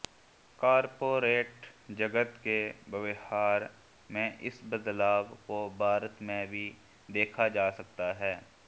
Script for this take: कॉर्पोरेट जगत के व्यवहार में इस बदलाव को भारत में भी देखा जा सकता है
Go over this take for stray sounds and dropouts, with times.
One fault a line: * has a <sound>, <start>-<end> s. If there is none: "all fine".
all fine